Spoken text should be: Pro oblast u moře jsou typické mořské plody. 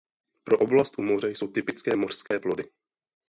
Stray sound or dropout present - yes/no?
yes